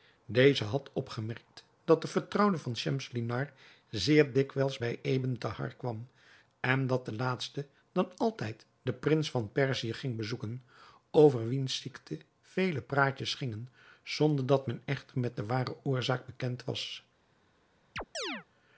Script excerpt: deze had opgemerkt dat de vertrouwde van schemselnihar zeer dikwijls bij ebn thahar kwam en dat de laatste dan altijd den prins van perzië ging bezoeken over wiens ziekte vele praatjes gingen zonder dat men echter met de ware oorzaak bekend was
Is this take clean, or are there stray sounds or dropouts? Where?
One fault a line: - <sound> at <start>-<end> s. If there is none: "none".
- chirp at 18.0-18.5 s